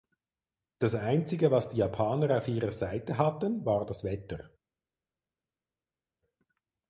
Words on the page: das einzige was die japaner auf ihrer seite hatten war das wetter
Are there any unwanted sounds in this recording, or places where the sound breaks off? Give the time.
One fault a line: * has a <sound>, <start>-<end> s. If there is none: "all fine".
all fine